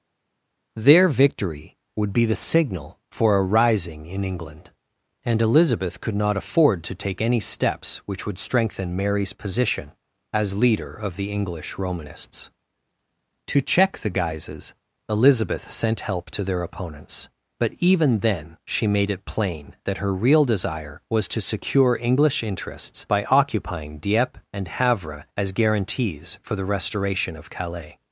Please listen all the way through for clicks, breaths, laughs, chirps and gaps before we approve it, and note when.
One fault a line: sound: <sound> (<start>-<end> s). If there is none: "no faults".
no faults